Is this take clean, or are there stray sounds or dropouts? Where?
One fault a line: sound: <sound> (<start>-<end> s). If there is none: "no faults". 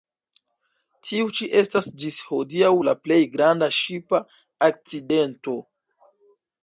no faults